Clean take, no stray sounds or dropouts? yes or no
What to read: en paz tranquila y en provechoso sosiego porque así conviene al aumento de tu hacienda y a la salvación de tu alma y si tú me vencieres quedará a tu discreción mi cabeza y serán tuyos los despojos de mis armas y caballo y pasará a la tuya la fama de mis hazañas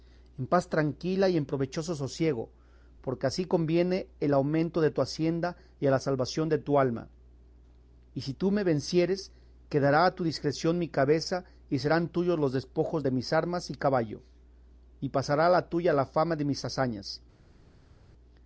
yes